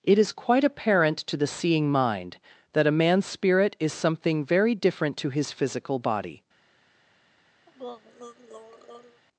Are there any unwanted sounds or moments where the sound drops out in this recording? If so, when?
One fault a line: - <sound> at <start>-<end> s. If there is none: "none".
- throat clearing at 7.7-9.2 s